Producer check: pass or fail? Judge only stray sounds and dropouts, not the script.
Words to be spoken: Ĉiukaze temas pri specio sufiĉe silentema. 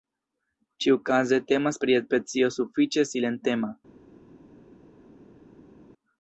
pass